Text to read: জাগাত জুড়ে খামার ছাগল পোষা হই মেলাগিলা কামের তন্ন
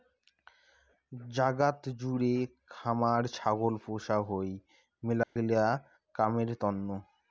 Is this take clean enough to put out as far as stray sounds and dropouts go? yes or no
no